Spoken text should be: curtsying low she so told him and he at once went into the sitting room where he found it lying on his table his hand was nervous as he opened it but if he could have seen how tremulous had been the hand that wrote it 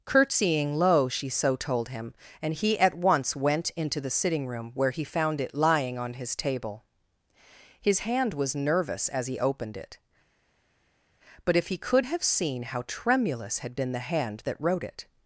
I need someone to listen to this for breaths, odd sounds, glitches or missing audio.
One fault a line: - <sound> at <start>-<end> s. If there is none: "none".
none